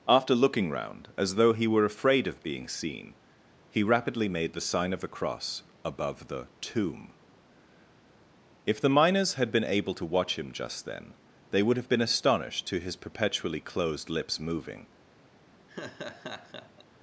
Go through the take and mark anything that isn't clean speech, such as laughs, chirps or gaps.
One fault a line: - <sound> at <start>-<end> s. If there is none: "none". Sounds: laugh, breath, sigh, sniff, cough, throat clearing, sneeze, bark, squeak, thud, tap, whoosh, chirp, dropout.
- laugh at 15.7-16.8 s